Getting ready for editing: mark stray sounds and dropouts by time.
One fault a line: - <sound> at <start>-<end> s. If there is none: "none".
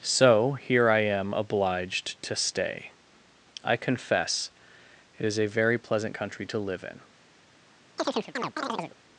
- chirp at 8.0-9.0 s